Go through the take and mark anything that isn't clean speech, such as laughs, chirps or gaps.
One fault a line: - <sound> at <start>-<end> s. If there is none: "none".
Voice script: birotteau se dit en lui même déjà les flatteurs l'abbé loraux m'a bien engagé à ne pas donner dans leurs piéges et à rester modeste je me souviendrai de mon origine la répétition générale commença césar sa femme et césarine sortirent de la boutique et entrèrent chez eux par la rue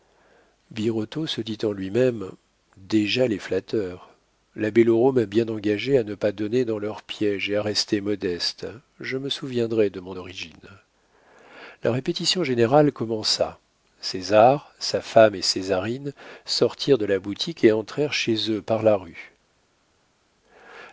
none